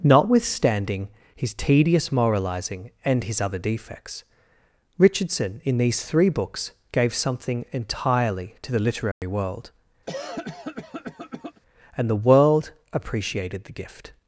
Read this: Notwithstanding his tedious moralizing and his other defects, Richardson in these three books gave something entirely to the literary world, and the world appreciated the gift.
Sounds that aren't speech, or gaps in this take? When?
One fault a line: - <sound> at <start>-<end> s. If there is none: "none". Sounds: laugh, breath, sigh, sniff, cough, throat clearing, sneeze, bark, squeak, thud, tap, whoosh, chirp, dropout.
- dropout at 9.1-9.2 s
- cough at 10.1-11.6 s